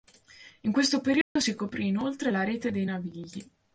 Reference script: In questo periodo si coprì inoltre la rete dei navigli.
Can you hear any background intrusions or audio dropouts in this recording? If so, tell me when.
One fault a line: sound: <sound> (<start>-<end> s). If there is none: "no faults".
sound: dropout (1.2-1.4 s)